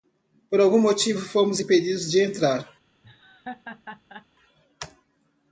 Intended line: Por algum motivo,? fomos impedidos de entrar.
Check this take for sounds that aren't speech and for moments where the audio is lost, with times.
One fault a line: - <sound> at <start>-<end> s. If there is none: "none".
- laugh at 3.0-4.3 s